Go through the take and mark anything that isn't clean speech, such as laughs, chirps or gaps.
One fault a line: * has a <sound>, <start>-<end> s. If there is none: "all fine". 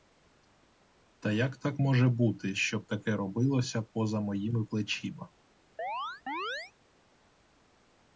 * has a chirp, 5.8-6.7 s